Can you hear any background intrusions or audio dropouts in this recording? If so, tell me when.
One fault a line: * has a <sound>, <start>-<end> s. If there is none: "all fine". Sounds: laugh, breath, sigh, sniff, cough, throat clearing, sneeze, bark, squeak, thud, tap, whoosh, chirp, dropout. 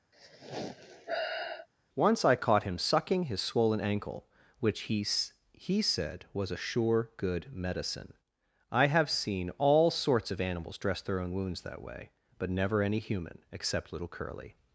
* has a sigh, 0.1-1.7 s